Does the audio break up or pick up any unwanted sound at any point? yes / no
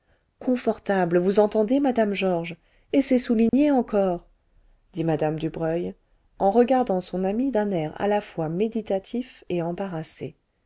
yes